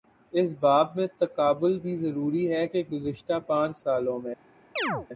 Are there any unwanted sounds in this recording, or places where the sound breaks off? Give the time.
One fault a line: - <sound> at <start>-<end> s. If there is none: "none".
- chirp at 4.8-5.1 s